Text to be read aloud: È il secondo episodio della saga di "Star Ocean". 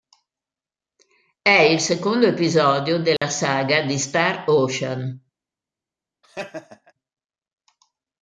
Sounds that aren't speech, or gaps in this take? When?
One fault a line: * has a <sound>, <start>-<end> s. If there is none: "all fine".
* has a dropout, 3.2-3.2 s
* has a laugh, 6.2-6.9 s